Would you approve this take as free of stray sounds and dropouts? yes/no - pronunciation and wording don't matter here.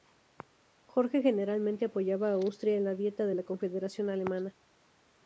yes